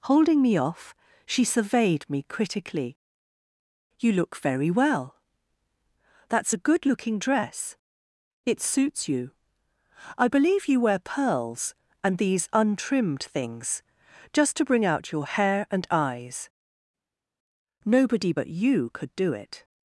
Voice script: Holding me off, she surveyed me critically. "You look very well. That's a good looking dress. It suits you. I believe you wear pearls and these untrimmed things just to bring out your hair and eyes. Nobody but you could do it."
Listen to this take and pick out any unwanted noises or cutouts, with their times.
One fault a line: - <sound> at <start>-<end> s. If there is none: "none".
none